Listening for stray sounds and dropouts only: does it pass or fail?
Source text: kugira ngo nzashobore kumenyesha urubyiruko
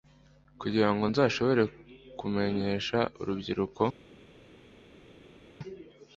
pass